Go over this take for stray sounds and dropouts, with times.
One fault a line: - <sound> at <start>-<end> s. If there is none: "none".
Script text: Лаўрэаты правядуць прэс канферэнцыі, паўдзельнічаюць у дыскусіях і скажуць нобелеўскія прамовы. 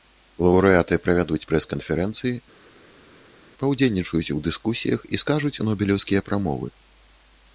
none